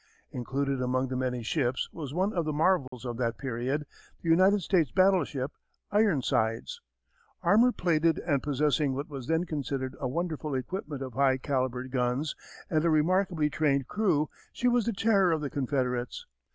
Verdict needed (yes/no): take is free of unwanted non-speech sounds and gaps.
no